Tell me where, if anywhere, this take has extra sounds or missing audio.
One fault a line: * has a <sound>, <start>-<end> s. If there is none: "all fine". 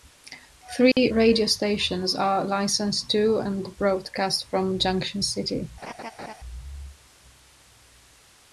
* has a dropout, 0.9-1.0 s
* has a laugh, 5.8-6.3 s